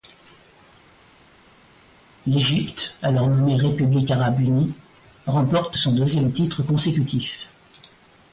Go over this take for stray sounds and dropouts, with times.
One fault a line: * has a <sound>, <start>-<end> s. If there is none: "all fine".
all fine